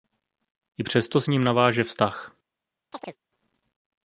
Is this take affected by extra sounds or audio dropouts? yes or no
yes